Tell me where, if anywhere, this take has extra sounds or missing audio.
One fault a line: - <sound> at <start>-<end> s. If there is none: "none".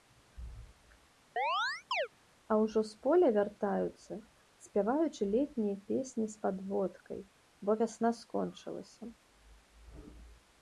- chirp at 1.4-2.1 s